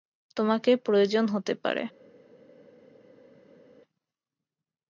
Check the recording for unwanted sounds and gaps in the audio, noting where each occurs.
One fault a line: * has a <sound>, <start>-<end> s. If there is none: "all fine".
all fine